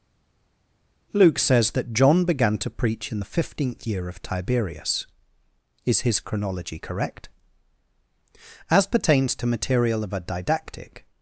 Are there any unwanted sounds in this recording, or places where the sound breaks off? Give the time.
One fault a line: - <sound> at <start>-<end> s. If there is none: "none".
none